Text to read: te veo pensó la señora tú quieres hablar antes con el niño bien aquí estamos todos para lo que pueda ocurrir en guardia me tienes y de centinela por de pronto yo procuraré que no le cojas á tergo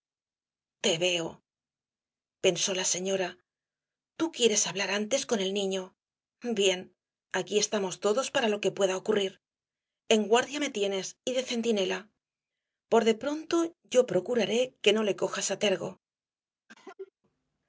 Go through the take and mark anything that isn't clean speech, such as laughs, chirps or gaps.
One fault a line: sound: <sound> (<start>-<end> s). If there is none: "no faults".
sound: cough (16.7-17.1 s)